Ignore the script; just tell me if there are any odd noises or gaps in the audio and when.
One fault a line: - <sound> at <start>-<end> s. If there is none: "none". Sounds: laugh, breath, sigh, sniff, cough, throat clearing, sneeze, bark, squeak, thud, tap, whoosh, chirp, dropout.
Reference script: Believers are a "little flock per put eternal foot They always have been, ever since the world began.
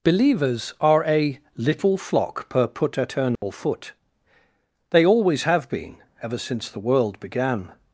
- dropout at 3.4-3.4 s